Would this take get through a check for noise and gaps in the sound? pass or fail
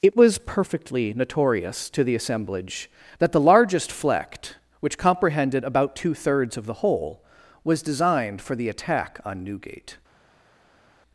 pass